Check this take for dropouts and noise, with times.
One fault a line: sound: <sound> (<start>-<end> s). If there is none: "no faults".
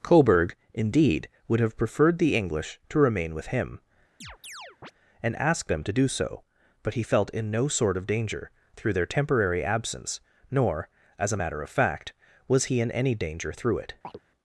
sound: chirp (4.2-4.9 s)
sound: chirp (14.0-14.2 s)